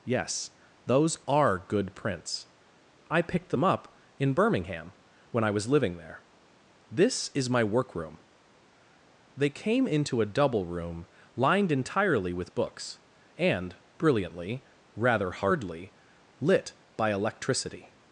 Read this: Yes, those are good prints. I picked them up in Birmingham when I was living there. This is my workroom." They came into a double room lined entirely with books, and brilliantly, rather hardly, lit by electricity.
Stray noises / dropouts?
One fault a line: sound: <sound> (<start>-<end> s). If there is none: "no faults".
no faults